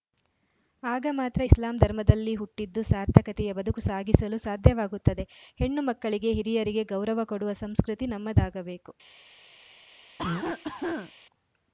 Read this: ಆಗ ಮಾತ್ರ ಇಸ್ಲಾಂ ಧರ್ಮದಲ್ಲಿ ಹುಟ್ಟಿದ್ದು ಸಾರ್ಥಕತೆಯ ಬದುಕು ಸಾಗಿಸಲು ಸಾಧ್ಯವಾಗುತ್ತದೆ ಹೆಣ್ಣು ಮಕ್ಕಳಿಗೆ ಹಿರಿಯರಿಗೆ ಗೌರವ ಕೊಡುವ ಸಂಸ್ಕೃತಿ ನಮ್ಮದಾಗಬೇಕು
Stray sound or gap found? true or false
true